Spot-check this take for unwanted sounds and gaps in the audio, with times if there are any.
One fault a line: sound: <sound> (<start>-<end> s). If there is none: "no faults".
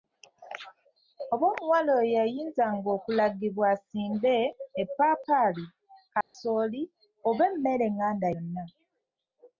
sound: dropout (6.2-6.3 s)